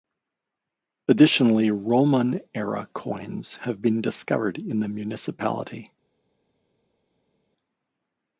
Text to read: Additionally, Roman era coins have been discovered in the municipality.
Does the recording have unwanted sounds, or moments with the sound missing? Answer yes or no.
no